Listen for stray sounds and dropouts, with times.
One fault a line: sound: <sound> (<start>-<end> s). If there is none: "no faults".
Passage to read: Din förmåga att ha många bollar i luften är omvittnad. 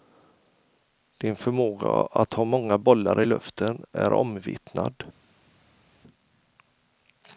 no faults